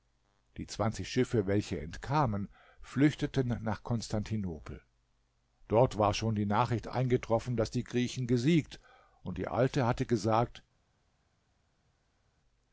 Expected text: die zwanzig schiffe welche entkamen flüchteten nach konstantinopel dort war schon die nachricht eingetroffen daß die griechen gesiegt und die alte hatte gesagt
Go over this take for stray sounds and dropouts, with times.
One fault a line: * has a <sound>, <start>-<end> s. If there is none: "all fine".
all fine